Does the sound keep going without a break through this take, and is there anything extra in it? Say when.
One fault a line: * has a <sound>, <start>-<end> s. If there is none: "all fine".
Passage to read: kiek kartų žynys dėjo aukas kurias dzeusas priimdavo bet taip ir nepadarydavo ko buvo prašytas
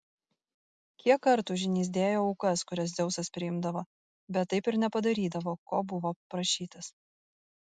all fine